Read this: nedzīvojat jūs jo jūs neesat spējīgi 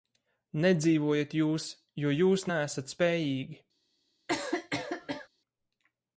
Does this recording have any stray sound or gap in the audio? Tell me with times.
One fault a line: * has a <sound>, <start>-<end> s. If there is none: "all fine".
* has a cough, 4.3-5.3 s